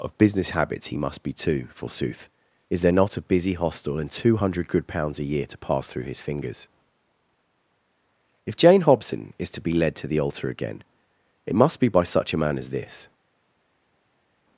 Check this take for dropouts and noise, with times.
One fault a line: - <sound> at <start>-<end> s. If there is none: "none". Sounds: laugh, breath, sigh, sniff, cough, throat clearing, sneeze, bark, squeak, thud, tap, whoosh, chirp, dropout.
none